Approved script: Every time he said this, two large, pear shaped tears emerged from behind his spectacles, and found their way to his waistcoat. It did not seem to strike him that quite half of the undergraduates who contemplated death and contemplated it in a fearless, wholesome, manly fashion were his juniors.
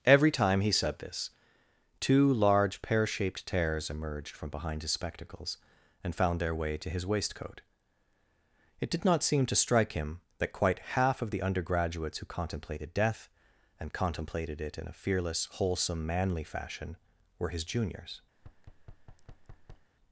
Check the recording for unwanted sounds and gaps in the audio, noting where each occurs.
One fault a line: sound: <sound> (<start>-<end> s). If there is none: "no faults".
sound: thud (18.4-19.9 s)